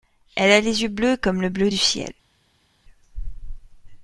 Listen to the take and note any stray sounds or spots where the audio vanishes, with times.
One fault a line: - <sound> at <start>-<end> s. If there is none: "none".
none